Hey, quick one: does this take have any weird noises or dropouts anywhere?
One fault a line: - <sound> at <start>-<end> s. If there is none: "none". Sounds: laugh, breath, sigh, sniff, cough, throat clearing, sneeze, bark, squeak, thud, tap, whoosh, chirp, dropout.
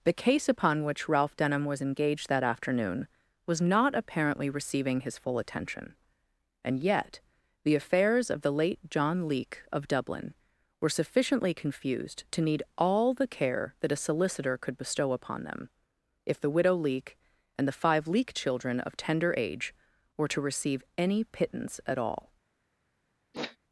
- sniff at 23.3-23.6 s